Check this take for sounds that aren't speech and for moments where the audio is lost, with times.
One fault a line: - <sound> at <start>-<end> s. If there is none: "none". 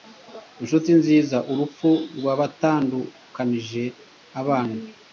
none